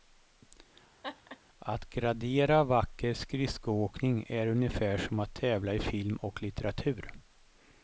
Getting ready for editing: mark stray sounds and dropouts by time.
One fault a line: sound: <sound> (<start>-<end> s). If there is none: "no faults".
sound: laugh (1.0-1.4 s)